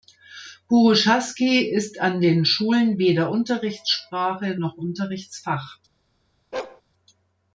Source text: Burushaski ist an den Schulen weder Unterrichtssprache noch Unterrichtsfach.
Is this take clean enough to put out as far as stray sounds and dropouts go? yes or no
no